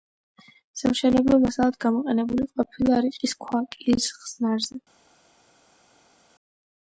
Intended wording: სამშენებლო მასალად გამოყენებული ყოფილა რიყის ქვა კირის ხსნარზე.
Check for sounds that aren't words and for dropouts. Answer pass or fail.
pass